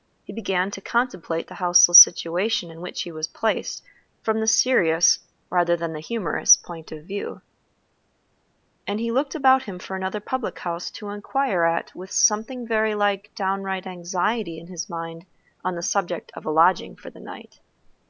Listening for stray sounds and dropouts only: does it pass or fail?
pass